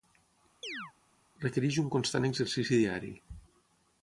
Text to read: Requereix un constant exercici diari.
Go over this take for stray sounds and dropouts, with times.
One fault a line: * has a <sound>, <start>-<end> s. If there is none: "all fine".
* has a chirp, 0.6-0.9 s